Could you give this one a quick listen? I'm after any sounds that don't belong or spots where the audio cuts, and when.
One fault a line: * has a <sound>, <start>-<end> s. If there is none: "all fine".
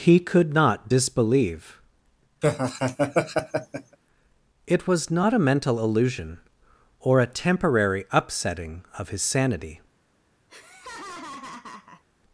* has a laugh, 2.4-4.0 s
* has a laugh, 10.5-12.0 s